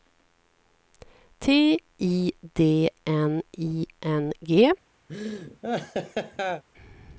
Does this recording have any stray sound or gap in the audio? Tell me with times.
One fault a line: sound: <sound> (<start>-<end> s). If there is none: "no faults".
sound: laugh (5.1-6.6 s)